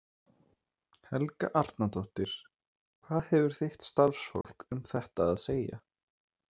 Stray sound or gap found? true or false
true